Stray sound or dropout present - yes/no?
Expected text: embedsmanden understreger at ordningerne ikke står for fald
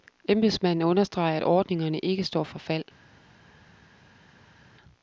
no